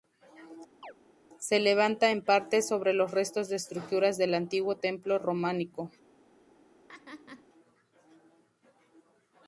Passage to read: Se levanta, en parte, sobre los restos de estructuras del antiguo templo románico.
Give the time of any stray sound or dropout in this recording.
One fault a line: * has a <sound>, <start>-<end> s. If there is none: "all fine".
* has a chirp, 0.8-0.9 s
* has a laugh, 6.9-7.5 s